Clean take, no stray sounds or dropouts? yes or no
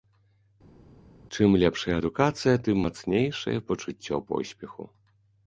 yes